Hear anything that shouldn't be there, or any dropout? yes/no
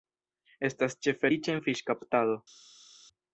no